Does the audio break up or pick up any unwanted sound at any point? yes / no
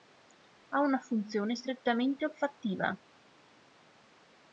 no